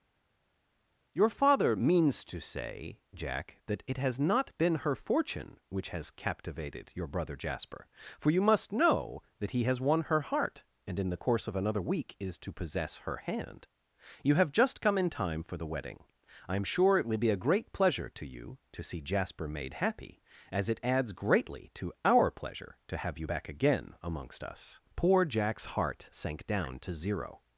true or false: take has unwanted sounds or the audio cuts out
false